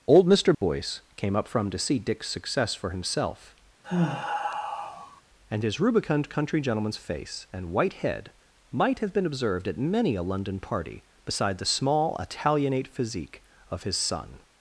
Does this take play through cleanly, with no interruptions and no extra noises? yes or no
no